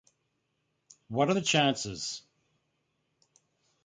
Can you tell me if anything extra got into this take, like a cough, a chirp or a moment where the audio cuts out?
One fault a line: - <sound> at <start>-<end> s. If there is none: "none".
none